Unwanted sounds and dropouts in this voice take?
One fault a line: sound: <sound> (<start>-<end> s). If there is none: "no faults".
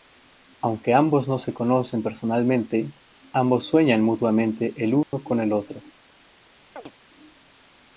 sound: dropout (5.0-5.1 s)
sound: chirp (6.8-6.9 s)